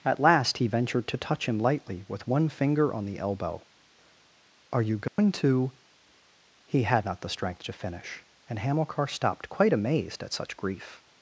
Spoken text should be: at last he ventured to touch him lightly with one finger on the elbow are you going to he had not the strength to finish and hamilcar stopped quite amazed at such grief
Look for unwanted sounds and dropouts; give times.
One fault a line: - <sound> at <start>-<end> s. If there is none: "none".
- dropout at 5.1-5.2 s